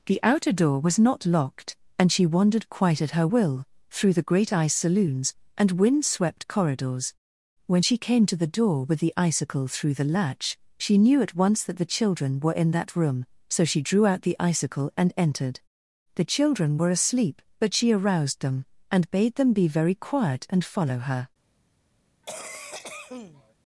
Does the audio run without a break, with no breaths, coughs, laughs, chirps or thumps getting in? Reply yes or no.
no